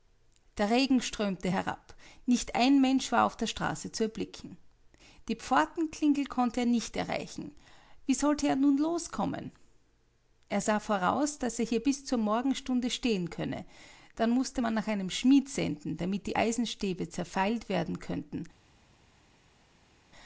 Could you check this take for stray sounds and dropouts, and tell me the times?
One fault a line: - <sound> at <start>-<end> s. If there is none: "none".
none